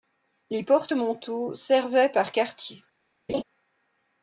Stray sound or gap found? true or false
true